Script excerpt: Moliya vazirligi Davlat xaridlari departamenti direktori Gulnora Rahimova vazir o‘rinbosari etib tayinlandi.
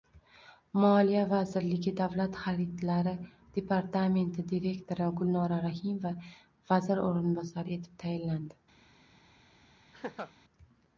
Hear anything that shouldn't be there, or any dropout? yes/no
yes